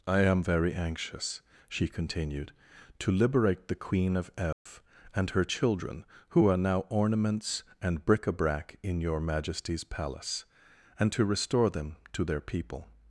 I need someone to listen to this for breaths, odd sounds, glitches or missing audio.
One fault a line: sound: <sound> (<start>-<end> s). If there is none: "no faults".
sound: dropout (4.5-4.7 s)